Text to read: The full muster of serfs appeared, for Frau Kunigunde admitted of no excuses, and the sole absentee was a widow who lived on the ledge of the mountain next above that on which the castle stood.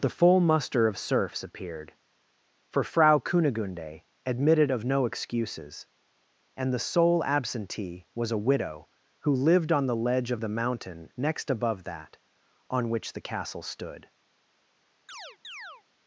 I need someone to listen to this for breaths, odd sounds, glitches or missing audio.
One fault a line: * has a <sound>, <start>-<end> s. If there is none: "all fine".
* has a chirp, 15.1-15.8 s